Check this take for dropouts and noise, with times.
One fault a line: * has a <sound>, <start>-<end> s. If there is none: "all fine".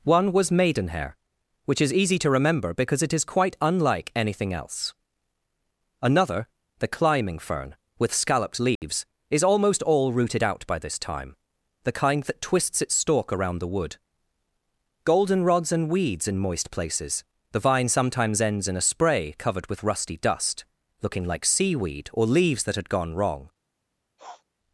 * has a dropout, 8.8-8.8 s
* has a sniff, 24.2-24.4 s